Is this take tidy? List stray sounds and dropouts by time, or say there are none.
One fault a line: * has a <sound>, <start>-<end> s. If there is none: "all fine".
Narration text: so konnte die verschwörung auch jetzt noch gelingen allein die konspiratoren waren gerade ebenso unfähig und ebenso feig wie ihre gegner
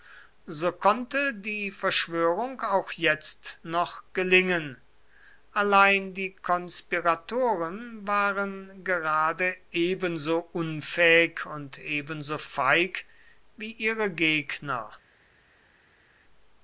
all fine